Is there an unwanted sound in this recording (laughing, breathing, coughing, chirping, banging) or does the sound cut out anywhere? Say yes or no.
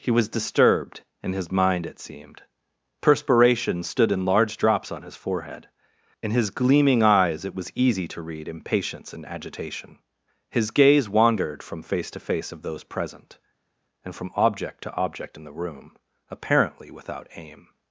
no